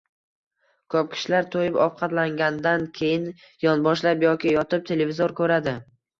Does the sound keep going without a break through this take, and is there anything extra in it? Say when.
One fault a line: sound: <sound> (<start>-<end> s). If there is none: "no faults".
no faults